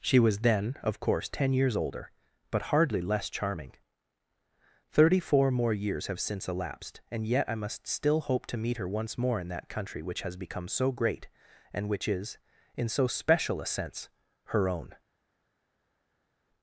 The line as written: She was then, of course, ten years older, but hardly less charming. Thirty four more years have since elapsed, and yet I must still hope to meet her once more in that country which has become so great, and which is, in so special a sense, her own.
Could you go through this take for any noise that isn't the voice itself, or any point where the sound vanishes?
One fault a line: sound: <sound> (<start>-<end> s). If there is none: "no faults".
no faults